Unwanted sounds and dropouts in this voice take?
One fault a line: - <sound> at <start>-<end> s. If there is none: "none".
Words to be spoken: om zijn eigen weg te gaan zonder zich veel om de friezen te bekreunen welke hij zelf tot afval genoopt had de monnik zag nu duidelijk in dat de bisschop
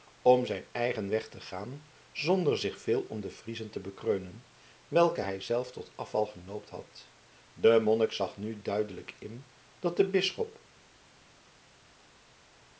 none